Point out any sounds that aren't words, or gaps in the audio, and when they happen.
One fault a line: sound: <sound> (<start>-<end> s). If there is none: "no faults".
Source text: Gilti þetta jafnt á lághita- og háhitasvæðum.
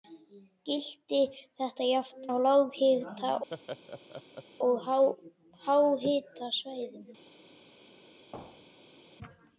sound: laugh (3.5-4.4 s)
sound: thud (8.3-9.0 s)